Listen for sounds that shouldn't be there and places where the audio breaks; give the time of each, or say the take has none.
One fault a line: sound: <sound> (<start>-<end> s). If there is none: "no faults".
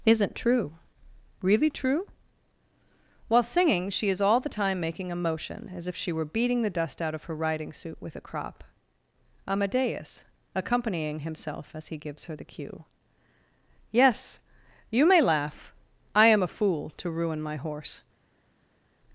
no faults